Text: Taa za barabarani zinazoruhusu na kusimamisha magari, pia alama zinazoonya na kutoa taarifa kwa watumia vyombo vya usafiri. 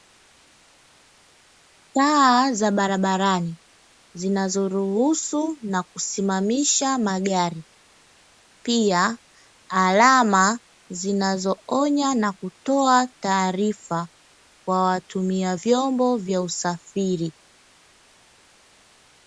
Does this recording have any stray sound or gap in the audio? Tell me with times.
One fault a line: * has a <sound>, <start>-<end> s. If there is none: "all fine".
all fine